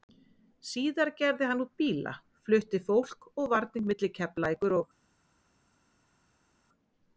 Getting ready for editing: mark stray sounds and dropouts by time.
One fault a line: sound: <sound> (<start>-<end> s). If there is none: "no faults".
no faults